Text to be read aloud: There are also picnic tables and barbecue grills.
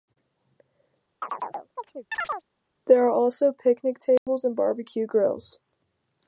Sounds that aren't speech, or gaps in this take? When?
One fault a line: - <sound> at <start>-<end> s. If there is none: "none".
- chirp at 1.2-2.4 s
- dropout at 4.2-4.3 s